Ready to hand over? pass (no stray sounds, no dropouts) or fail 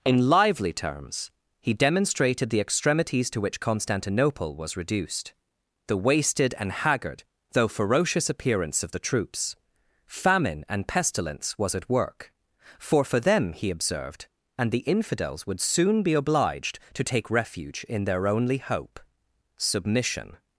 pass